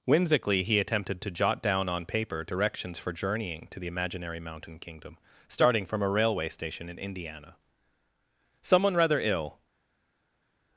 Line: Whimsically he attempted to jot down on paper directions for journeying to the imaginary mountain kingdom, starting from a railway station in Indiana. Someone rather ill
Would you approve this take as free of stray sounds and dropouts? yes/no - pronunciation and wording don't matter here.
yes